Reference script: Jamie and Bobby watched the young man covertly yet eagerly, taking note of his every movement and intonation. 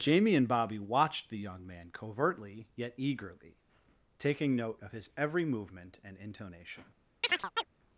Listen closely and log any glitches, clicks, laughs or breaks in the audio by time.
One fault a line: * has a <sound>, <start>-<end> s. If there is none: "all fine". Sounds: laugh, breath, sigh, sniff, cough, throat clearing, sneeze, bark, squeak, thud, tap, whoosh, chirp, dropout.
* has a chirp, 7.2-7.7 s